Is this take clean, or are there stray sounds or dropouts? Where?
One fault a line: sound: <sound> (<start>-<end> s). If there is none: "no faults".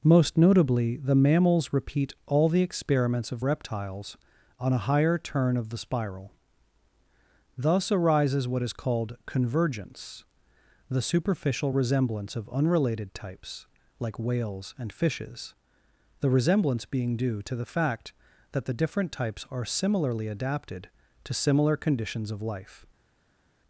no faults